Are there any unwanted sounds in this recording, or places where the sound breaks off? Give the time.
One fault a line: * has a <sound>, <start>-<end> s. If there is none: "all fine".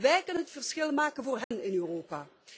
* has a dropout, 1.4-1.5 s